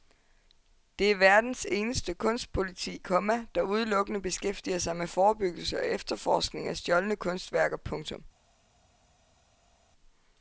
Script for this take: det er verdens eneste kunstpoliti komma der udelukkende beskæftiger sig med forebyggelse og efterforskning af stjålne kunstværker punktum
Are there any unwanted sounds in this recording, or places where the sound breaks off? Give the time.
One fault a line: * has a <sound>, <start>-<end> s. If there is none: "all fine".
all fine